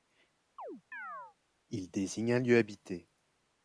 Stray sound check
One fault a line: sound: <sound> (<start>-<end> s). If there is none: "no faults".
sound: chirp (0.6-1.4 s)